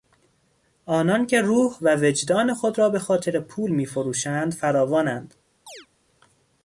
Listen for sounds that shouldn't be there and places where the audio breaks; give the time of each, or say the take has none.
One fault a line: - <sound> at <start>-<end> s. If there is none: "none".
- chirp at 5.7-5.9 s